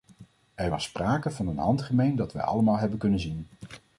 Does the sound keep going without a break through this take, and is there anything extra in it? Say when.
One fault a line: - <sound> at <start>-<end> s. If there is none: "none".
none